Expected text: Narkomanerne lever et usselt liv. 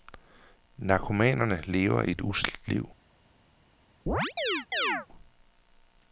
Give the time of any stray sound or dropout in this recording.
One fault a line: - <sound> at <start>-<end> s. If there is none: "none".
- chirp at 4.1-5.1 s